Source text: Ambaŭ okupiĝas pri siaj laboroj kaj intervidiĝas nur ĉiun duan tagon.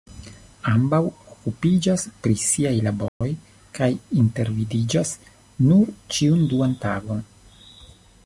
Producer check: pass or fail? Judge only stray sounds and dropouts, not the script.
fail